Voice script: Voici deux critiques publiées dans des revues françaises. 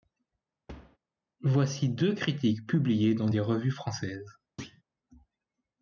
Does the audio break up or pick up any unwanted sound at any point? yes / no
yes